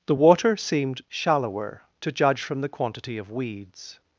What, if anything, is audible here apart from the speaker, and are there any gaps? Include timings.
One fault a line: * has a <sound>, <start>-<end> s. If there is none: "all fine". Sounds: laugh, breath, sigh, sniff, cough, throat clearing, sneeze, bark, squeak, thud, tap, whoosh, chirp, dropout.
all fine